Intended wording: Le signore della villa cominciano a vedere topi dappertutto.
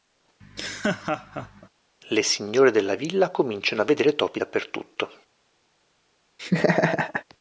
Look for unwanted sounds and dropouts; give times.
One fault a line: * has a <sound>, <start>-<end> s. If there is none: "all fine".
* has a laugh, 0.4-1.7 s
* has a laugh, 6.4-7.2 s